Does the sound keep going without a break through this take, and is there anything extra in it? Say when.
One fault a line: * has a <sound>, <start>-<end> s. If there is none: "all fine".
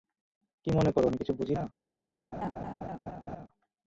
* has a laugh, 2.3-3.5 s